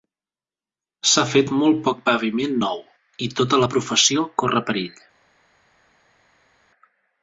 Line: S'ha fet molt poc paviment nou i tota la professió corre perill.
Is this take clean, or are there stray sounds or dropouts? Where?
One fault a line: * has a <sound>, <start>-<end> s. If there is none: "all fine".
all fine